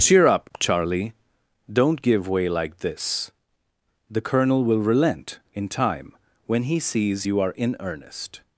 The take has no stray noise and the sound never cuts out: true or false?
true